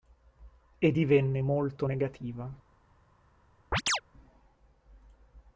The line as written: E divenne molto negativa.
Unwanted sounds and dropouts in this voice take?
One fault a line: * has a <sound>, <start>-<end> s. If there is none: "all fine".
* has a chirp, 3.7-4.0 s